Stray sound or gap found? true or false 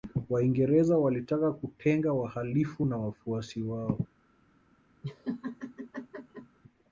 true